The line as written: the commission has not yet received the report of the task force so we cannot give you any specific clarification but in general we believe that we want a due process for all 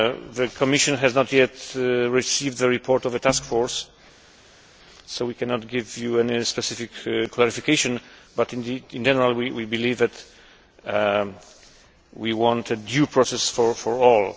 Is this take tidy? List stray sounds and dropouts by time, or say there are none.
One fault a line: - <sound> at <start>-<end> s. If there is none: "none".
none